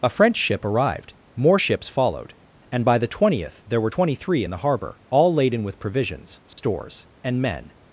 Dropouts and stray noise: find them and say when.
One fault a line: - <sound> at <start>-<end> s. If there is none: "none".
- dropout at 6.5-6.6 s